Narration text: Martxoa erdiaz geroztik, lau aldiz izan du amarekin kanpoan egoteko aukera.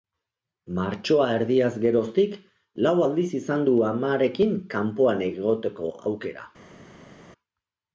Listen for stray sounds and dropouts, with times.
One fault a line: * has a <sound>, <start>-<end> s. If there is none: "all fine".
all fine